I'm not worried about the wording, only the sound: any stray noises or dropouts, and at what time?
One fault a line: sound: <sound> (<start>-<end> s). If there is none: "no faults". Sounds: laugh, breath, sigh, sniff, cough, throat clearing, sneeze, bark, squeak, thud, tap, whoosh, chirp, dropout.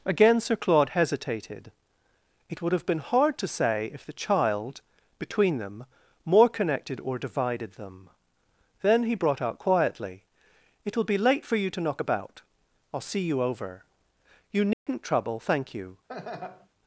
sound: dropout (14.7-14.9 s)
sound: laugh (16.1-16.7 s)